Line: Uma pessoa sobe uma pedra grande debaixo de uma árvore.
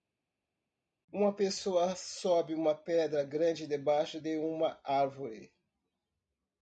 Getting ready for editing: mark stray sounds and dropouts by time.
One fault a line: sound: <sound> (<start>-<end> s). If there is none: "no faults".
no faults